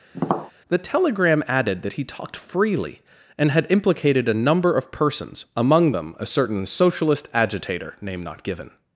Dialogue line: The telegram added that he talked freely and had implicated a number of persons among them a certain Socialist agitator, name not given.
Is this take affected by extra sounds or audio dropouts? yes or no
yes